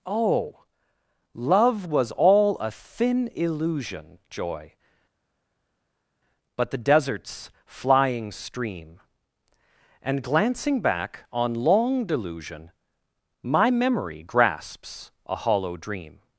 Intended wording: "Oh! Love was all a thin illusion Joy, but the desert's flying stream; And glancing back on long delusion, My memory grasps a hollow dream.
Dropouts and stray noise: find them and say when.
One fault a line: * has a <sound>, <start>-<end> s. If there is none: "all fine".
all fine